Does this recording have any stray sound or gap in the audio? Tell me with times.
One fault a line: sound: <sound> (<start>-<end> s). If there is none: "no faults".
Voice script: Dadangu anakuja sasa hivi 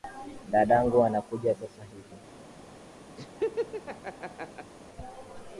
sound: laugh (3.2-4.7 s)